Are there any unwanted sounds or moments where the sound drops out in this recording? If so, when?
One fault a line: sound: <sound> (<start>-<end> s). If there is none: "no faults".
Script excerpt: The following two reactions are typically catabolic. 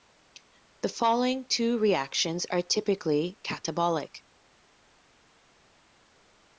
no faults